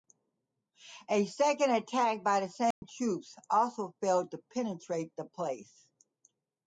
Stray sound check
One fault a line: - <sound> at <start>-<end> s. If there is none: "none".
- dropout at 2.7-2.8 s